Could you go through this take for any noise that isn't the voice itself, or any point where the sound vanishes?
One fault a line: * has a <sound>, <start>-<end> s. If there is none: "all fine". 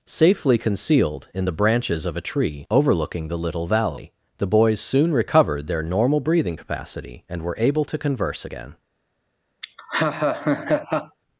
* has a laugh, 9.6-11.2 s